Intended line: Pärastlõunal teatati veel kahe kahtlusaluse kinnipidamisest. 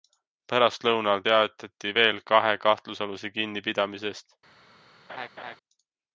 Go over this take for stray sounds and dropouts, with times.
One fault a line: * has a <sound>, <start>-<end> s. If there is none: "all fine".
* has a laugh, 5.1-5.6 s